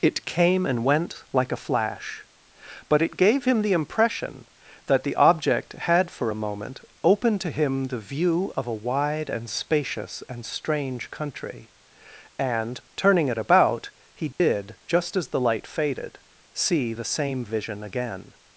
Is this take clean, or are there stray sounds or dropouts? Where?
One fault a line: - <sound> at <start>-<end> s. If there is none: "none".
- dropout at 14.3-14.4 s